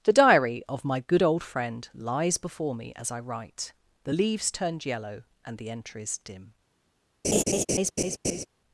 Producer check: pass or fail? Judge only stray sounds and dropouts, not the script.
fail